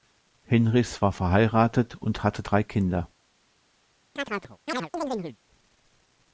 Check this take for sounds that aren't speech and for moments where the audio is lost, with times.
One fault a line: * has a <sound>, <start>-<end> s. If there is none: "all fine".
* has a chirp, 4.2-5.4 s